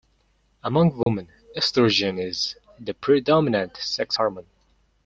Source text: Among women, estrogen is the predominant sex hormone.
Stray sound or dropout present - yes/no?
yes